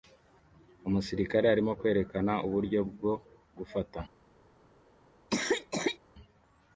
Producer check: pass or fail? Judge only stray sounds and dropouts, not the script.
fail